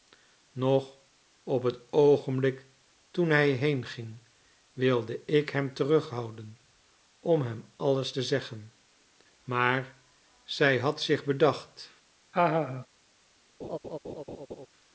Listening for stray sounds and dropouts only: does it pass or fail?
fail